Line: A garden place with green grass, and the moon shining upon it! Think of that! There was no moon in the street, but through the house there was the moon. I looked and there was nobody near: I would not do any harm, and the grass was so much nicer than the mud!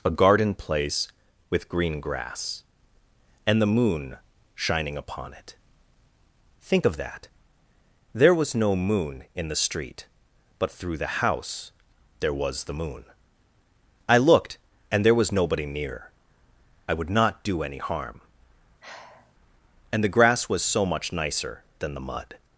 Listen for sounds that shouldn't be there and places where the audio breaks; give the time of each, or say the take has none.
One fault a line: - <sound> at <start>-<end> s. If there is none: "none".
- sigh at 18.8-19.3 s